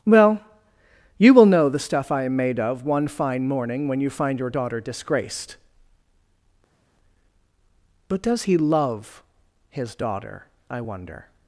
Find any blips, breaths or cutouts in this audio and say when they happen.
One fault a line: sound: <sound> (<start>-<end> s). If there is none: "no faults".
no faults